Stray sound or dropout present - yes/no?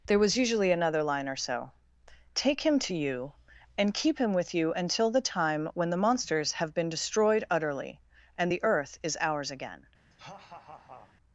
yes